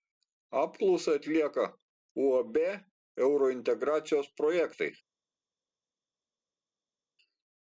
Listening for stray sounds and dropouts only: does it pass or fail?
pass